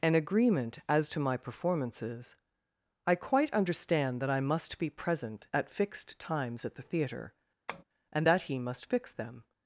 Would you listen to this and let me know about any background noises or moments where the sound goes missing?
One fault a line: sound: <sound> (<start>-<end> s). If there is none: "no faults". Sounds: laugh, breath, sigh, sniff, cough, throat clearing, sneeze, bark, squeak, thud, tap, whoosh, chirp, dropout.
sound: tap (7.7-7.8 s)